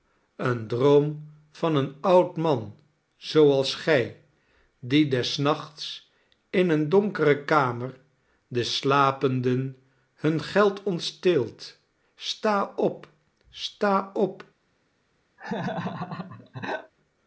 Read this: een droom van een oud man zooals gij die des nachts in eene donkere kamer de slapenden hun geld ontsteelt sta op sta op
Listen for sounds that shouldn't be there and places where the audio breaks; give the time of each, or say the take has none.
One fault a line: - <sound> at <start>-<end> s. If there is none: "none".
- laugh at 15.4-16.9 s